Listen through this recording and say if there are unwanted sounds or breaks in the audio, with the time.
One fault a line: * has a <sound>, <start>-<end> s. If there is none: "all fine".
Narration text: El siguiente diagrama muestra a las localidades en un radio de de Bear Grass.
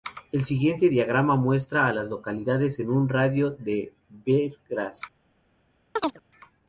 * has a chirp, 6.0-6.2 s